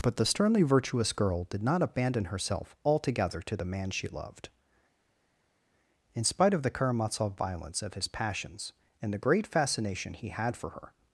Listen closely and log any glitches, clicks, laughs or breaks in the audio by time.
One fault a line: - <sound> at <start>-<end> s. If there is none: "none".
none